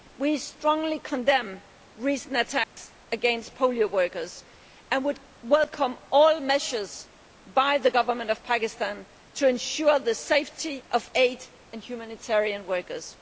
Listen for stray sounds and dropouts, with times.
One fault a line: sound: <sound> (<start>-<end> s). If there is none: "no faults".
sound: dropout (2.6-2.8 s)